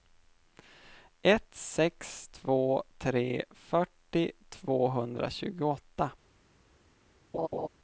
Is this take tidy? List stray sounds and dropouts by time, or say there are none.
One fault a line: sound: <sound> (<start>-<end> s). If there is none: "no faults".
sound: laugh (7.3-7.7 s)